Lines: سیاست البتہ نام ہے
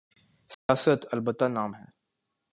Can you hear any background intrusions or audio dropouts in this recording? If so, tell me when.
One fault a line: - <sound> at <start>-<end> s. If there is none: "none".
- dropout at 0.5-0.7 s